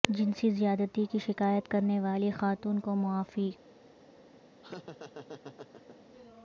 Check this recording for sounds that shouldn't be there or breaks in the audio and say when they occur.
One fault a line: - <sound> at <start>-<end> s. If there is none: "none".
- laugh at 4.6-6.0 s